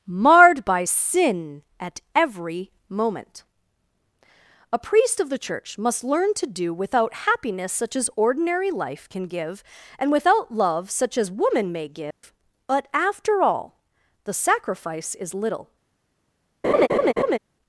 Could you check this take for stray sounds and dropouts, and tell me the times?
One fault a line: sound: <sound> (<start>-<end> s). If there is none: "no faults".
sound: dropout (12.1-12.2 s)
sound: laugh (16.6-17.4 s)